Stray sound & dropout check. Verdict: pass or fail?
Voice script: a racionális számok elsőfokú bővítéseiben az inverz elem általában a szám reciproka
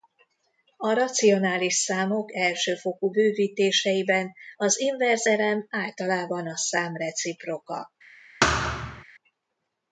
fail